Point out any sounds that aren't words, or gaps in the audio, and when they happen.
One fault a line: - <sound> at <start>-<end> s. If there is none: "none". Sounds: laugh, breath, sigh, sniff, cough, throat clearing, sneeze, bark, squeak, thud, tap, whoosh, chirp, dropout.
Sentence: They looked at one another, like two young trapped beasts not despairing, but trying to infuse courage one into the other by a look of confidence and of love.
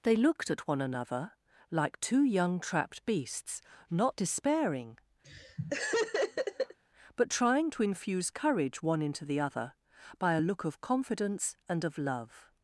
- laugh at 5.2-6.8 s